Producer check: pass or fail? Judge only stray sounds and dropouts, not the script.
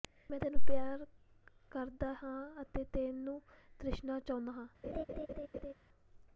fail